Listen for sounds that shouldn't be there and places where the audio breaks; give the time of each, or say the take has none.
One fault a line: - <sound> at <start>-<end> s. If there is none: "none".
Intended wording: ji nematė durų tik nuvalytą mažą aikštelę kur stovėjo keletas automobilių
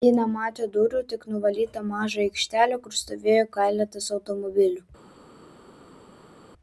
none